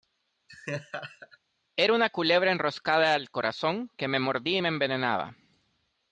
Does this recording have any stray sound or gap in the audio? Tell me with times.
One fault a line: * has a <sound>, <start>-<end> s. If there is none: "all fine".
* has a laugh, 0.5-1.4 s